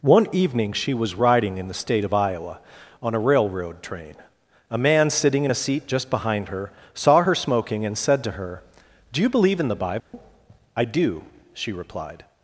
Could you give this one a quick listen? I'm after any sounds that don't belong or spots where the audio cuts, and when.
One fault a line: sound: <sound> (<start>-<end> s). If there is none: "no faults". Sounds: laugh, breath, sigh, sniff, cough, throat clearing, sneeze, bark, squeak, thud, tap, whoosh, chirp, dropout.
sound: dropout (10.0-10.1 s)